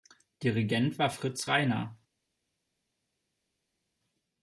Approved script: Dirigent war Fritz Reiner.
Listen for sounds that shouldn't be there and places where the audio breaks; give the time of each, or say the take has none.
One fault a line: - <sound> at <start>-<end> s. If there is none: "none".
none